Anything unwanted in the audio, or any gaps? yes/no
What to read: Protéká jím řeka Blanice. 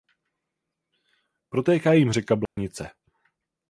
yes